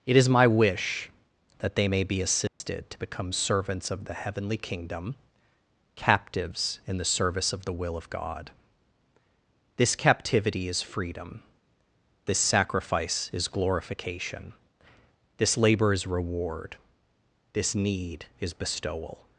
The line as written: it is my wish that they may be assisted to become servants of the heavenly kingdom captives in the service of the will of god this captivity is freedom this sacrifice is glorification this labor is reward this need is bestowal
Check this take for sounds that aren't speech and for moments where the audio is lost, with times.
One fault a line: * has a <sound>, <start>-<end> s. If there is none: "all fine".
* has a dropout, 2.5-2.6 s